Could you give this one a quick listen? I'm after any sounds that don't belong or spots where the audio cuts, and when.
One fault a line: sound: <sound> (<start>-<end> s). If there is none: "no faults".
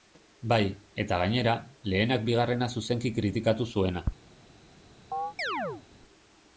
sound: chirp (5.1-5.8 s)